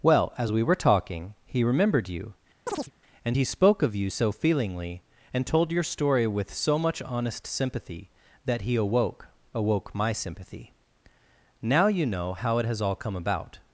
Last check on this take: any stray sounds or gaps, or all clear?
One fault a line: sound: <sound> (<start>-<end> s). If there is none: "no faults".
sound: chirp (2.7-2.9 s)